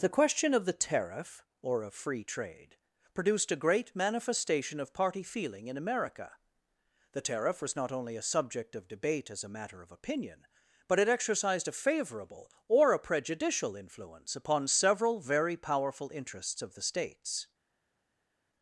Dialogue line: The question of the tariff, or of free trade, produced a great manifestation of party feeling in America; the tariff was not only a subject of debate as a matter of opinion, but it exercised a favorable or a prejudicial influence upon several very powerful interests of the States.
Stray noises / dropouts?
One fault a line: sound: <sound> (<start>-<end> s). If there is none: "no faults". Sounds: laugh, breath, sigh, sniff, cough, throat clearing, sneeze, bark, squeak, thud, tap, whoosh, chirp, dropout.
no faults